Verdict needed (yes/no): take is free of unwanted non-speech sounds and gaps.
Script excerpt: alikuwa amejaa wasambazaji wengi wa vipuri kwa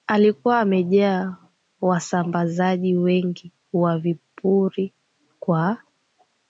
yes